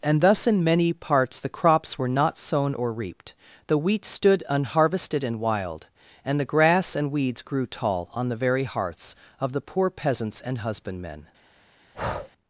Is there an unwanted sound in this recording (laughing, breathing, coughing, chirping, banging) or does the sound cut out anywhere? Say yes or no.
yes